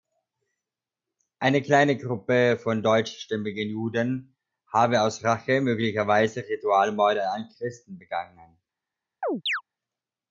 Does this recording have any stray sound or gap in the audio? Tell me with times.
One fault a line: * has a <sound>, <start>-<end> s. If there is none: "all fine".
* has a chirp, 9.2-9.6 s